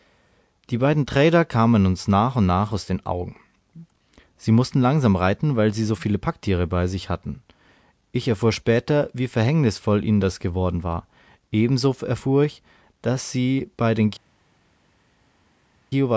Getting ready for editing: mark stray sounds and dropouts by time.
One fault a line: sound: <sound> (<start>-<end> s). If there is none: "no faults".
no faults